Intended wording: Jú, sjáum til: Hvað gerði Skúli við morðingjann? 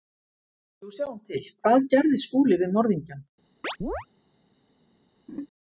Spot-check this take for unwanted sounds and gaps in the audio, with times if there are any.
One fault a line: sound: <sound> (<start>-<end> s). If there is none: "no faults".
sound: chirp (3.6-4.1 s)
sound: laugh (5.3-5.5 s)